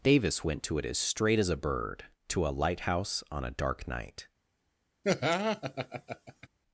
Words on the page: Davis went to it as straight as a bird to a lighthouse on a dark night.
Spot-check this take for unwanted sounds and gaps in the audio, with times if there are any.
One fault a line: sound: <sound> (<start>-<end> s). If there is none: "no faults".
sound: laugh (5.0-6.5 s)